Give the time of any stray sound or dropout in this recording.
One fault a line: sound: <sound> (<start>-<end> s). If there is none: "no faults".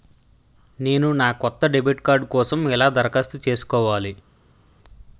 no faults